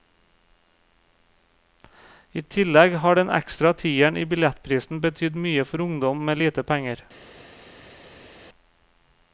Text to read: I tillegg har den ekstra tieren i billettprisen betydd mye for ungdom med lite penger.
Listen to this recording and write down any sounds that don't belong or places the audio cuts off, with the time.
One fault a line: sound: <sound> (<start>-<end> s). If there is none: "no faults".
no faults